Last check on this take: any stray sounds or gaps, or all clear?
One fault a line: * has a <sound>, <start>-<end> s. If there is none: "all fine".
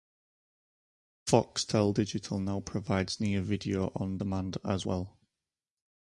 all fine